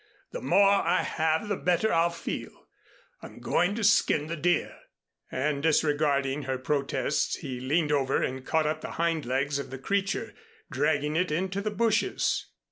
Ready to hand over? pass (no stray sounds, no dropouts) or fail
pass